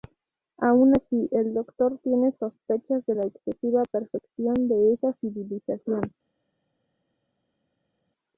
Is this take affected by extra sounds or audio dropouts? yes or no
no